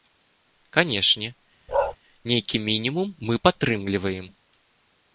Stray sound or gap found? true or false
true